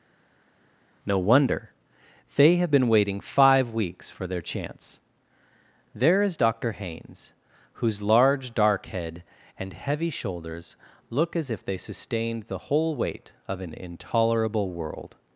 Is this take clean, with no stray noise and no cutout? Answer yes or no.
yes